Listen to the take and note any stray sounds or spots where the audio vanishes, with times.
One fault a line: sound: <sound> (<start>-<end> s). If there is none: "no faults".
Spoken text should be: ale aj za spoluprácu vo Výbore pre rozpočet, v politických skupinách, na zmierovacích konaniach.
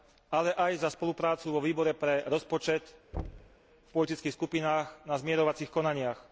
sound: thud (3.1-3.6 s)